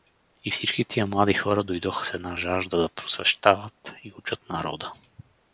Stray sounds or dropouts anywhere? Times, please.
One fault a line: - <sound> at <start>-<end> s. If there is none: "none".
none